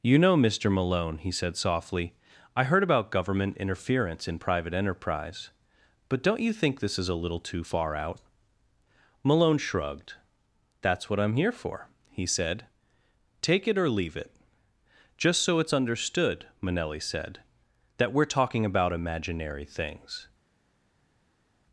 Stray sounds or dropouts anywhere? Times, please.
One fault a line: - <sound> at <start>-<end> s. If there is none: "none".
none